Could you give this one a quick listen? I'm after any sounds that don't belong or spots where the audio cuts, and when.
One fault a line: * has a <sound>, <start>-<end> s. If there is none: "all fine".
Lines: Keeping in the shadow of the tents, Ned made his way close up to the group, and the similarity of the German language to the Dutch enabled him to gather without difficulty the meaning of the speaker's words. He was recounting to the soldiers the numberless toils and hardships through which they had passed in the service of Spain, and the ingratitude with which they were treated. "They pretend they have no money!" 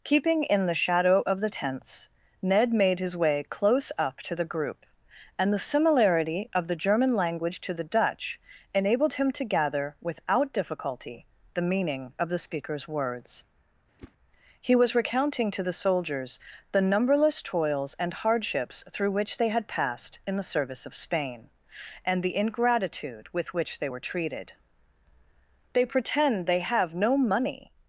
* has a whoosh, 14.0-14.1 s